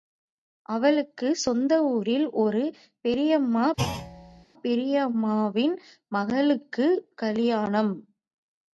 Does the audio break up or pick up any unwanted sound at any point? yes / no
yes